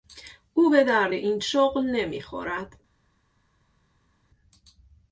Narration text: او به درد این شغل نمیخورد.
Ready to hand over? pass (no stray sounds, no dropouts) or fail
pass